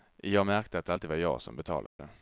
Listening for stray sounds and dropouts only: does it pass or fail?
fail